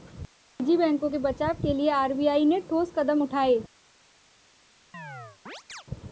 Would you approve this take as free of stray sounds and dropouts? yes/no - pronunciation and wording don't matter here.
no